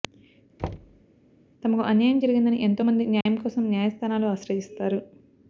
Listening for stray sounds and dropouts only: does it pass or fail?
fail